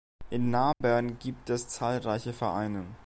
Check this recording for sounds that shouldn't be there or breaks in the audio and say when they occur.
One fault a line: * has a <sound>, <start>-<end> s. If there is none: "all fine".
* has a dropout, 0.7-0.8 s